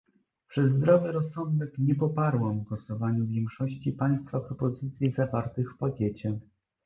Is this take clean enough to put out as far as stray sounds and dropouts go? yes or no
yes